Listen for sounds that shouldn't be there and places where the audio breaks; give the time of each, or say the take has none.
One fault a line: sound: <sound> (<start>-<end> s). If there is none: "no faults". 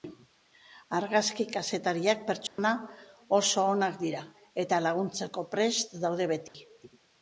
sound: dropout (2.5-2.6 s)
sound: dropout (6.5-6.5 s)